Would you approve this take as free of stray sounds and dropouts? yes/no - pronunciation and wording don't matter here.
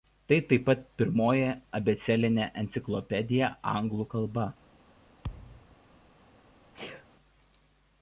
no